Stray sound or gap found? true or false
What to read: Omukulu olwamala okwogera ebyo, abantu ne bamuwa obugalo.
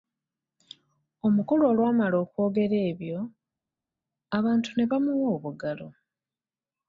false